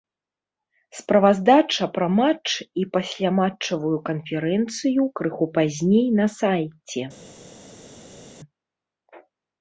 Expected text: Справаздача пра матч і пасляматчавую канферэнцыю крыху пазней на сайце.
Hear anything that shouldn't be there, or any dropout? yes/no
no